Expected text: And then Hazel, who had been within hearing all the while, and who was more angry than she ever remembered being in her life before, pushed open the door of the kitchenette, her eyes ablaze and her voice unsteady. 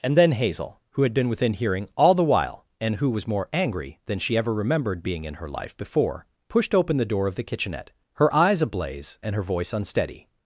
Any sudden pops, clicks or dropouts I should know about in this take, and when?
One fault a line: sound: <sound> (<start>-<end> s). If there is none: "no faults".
no faults